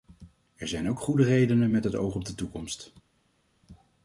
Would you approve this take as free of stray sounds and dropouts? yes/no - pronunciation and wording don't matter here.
yes